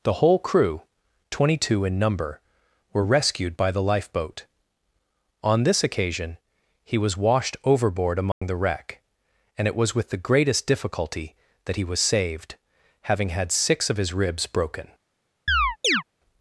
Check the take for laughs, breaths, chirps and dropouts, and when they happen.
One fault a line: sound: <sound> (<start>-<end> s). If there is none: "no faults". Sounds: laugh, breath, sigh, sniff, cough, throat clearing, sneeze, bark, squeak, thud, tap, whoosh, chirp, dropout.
sound: dropout (8.3-8.4 s)
sound: chirp (15.5-16.0 s)